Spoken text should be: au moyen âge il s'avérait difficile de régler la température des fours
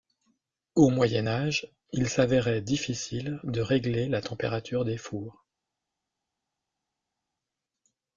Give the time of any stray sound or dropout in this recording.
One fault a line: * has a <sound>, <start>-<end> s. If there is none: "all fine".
all fine